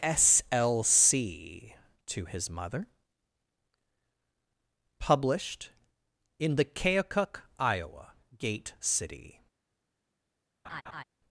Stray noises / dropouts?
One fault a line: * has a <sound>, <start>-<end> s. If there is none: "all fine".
* has a laugh, 10.6-11.0 s